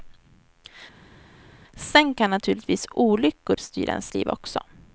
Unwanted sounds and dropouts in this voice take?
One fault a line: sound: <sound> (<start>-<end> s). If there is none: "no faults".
no faults